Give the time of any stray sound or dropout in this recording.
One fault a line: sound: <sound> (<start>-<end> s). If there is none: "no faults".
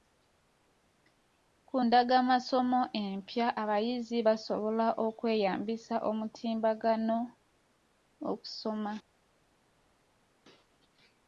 no faults